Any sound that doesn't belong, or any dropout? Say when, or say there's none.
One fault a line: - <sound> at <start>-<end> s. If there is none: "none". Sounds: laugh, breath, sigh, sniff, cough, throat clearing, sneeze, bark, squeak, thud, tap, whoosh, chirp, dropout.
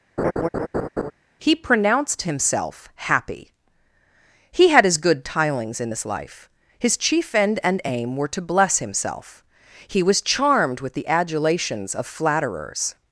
- laugh at 0.2-1.1 s